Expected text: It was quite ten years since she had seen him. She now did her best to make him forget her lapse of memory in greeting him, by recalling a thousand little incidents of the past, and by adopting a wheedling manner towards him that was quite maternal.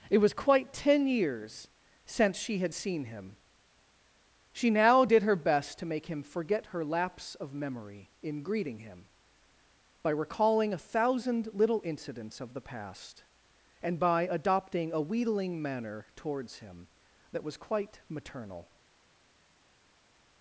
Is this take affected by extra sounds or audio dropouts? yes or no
no